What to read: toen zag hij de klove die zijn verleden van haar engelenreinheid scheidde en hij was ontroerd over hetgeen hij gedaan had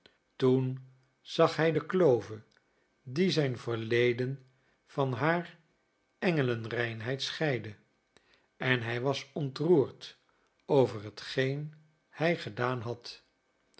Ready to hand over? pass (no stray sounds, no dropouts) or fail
pass